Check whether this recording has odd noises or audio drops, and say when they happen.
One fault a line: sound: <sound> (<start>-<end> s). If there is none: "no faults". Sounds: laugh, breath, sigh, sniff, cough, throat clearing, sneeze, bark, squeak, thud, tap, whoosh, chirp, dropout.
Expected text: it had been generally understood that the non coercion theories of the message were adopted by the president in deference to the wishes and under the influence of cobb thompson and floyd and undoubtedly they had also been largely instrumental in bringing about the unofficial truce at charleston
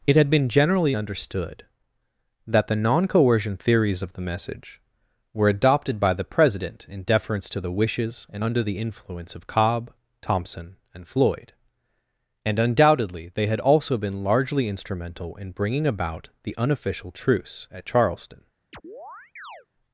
sound: chirp (18.7-19.7 s)